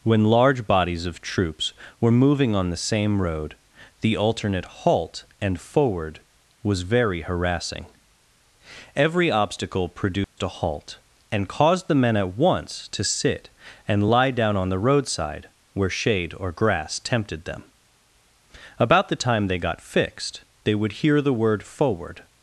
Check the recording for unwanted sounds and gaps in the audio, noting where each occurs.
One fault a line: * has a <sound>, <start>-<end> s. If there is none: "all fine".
* has a dropout, 10.2-10.4 s